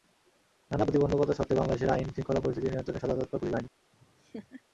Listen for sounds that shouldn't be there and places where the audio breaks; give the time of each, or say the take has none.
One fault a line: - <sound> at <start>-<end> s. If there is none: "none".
- laugh at 3.9-4.6 s